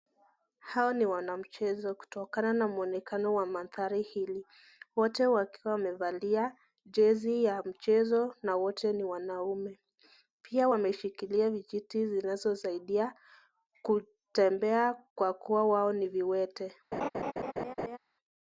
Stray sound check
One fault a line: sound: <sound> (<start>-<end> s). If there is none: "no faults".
sound: laugh (16.9-18.0 s)